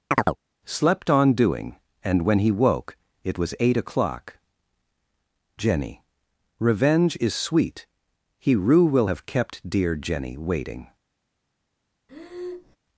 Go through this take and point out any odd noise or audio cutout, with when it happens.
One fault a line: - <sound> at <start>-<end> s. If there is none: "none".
- chirp at 0.1-0.4 s
- breath at 12.1-12.8 s